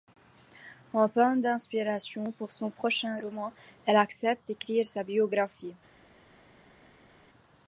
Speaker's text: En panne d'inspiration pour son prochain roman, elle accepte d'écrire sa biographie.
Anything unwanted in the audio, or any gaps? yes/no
no